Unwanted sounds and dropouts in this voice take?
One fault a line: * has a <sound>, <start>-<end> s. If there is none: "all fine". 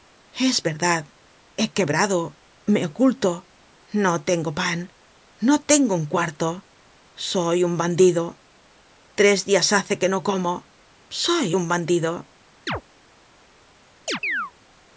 * has a chirp, 12.7-12.8 s
* has a chirp, 14.1-14.5 s